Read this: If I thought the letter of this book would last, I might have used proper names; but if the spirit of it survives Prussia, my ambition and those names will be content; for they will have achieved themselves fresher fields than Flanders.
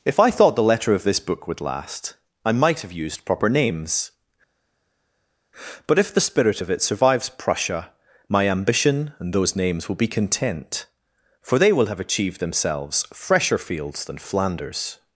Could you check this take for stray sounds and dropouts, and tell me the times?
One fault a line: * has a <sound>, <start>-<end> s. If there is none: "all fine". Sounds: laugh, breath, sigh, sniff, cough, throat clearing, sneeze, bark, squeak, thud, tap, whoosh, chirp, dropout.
all fine